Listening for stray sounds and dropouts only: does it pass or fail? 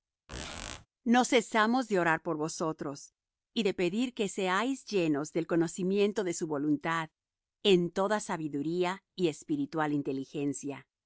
fail